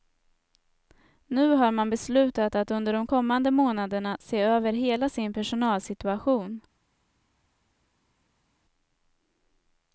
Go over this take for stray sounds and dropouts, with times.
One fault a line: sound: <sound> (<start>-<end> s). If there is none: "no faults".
no faults